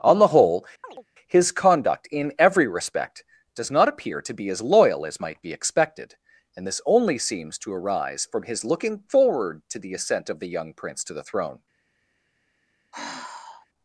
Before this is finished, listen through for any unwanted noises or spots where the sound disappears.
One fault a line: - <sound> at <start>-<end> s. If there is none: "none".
- chirp at 0.8-1.1 s
- sigh at 12.9-13.7 s